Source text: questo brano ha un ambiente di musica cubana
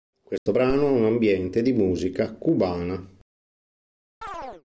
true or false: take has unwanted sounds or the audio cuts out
true